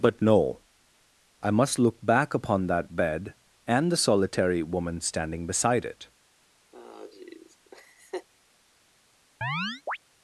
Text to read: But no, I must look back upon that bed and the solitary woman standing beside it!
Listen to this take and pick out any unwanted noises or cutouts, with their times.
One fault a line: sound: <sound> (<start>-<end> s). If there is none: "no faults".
sound: laugh (6.7-8.3 s)
sound: chirp (9.4-10.0 s)